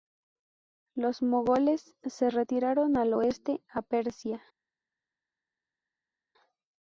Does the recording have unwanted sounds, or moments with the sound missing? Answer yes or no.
no